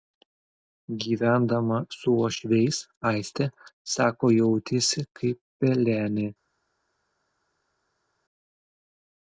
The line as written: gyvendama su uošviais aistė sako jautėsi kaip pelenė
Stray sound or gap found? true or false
false